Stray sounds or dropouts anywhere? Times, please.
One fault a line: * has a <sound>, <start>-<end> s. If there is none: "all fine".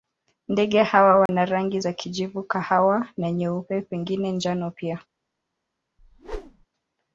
* has a dropout, 1.3-1.3 s
* has a whoosh, 6.0-6.7 s